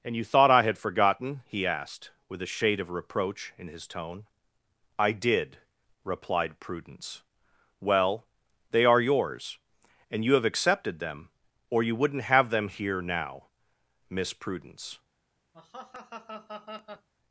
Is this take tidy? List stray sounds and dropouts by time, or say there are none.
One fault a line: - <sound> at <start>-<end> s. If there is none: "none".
- laugh at 15.5-17.1 s